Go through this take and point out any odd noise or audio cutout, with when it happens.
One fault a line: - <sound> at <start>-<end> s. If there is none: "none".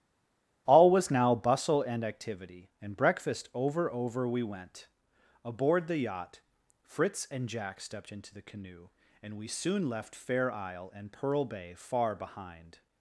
none